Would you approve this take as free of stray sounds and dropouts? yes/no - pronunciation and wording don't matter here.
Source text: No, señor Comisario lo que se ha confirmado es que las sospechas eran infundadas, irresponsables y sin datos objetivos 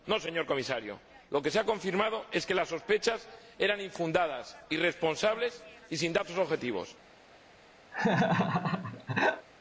no